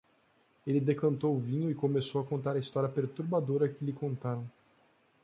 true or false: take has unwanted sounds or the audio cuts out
false